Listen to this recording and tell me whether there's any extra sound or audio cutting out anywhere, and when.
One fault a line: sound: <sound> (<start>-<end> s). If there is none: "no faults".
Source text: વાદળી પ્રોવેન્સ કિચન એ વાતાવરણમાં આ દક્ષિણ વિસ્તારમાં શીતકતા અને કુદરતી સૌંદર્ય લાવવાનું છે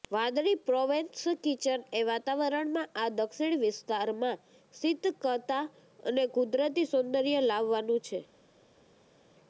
no faults